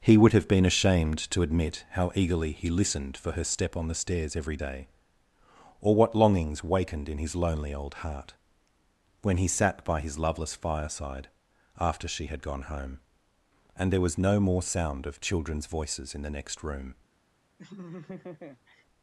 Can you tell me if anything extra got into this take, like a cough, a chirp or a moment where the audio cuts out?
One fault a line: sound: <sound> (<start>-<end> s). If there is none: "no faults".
sound: laugh (17.6-18.8 s)